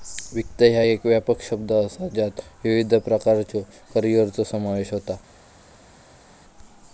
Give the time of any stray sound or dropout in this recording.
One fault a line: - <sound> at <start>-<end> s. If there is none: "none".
none